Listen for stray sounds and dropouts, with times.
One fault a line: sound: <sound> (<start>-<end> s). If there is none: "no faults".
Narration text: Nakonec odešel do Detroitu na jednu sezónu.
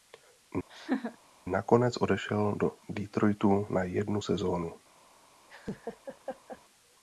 sound: laugh (0.7-1.2 s)
sound: laugh (5.5-6.6 s)